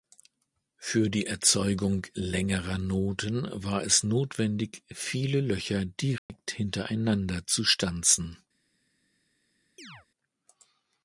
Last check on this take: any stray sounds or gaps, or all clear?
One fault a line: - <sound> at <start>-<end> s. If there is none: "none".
- dropout at 6.2-6.3 s
- chirp at 9.8-10.1 s